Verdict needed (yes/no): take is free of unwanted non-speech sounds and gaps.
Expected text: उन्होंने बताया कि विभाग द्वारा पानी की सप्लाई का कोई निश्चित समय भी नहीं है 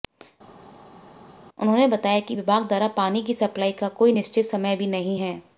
yes